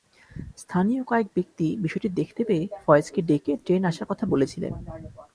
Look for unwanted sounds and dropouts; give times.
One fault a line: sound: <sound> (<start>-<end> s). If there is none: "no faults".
no faults